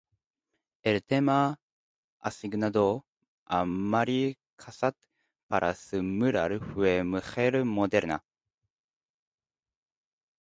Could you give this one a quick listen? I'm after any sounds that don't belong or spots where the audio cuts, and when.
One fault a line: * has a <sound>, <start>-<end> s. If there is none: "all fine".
all fine